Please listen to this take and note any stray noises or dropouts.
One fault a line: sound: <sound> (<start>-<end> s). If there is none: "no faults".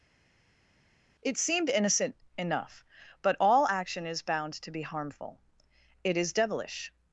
no faults